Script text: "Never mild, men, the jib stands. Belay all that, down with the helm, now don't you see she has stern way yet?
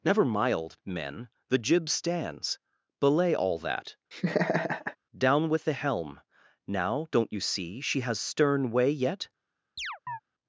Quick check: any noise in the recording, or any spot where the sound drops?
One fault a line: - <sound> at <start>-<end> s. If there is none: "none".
- laugh at 4.1-5.0 s
- chirp at 9.8-10.2 s